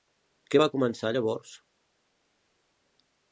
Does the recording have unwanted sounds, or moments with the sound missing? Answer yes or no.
no